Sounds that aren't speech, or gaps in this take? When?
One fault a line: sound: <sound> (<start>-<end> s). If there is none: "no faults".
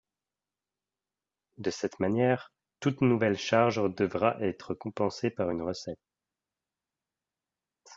no faults